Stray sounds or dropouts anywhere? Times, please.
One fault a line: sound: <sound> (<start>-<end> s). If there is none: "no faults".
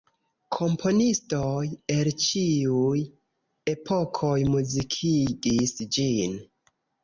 no faults